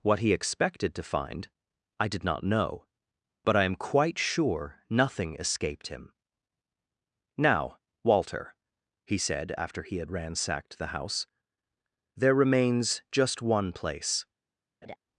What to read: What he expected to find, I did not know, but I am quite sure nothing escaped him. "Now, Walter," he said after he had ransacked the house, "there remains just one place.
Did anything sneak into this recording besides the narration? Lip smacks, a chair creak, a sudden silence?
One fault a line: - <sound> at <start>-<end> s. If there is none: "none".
- laugh at 14.8-15.0 s